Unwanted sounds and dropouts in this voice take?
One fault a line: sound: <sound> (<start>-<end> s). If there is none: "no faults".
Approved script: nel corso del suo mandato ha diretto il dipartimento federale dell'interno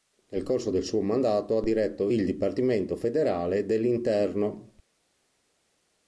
no faults